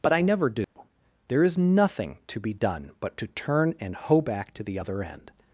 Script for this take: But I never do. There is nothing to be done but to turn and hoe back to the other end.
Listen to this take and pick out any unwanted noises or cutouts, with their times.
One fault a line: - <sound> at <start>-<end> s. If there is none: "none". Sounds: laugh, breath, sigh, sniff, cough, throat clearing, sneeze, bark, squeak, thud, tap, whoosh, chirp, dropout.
- dropout at 0.6-0.8 s